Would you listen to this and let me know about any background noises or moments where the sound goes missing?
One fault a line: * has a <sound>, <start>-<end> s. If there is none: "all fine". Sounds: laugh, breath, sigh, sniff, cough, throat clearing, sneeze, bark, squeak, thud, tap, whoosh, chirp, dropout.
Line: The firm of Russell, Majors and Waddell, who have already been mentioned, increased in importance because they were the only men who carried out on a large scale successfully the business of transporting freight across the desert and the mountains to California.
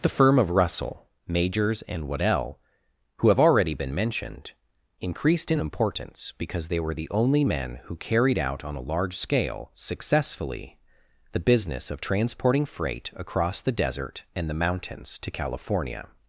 all fine